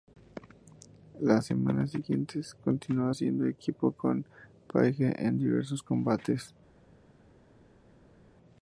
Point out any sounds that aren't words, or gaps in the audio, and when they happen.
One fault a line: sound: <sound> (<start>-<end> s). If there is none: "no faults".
no faults